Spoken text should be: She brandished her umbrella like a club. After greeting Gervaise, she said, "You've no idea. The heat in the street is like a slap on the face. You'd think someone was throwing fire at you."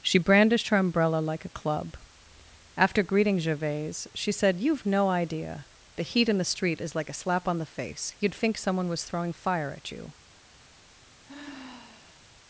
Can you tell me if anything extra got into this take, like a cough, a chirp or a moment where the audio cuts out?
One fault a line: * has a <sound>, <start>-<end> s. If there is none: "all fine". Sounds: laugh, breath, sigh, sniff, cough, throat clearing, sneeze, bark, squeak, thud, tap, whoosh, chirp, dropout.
* has a sigh, 11.2-12.3 s